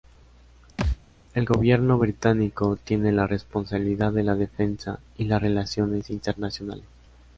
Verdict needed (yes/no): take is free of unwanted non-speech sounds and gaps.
no